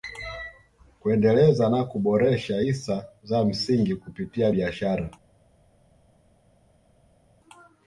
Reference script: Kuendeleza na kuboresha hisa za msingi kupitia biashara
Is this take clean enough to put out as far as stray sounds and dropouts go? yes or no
yes